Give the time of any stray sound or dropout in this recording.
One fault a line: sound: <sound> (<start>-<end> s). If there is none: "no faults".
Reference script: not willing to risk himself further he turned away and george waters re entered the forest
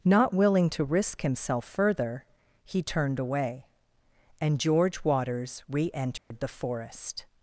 sound: dropout (6.2-6.3 s)